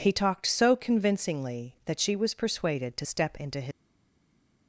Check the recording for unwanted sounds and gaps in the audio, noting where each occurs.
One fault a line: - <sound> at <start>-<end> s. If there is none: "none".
none